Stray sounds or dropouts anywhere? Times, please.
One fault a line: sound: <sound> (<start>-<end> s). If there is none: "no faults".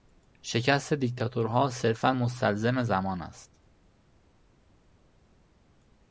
no faults